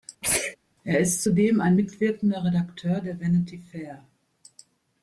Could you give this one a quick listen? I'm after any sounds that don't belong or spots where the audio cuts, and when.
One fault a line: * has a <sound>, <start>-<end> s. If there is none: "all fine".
* has a sneeze, 0.2-0.6 s